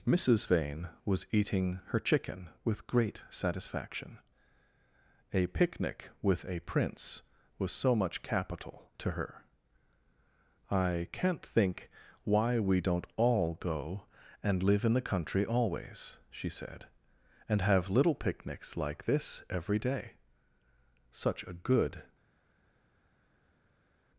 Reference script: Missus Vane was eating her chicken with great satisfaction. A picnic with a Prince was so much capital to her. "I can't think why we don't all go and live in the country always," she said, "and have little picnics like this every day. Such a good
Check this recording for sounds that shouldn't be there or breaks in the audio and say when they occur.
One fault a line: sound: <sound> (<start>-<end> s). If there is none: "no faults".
no faults